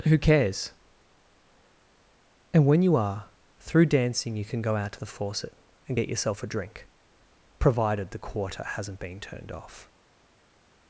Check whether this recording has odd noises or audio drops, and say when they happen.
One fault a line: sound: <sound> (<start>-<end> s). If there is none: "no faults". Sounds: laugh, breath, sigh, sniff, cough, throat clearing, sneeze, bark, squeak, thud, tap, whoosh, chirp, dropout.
no faults